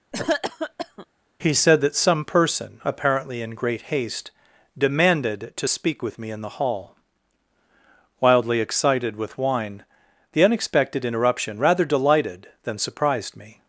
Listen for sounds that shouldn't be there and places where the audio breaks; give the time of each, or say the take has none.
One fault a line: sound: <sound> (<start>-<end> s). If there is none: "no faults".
sound: cough (0.1-1.1 s)